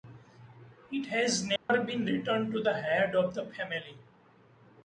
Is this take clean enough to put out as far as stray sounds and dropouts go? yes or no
no